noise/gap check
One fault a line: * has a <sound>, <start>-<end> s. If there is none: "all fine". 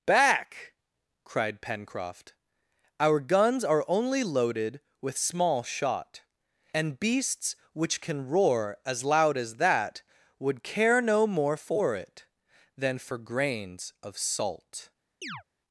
* has a chirp, 15.2-15.4 s